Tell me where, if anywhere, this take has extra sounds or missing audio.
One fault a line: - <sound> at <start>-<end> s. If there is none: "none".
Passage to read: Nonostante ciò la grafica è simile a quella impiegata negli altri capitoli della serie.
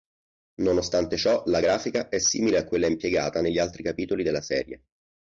none